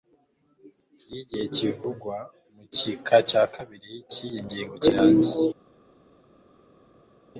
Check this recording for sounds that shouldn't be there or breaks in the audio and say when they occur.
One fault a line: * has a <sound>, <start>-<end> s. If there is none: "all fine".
all fine